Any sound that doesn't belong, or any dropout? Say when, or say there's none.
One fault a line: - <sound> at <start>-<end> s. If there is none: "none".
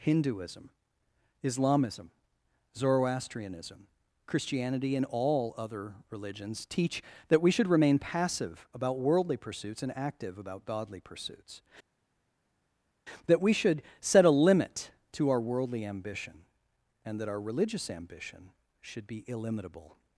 none